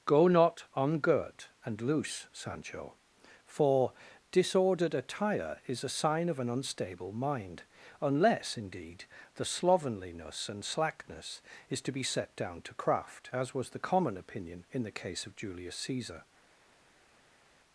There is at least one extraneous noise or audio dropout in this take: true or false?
false